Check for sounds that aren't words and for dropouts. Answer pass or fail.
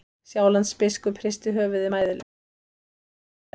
pass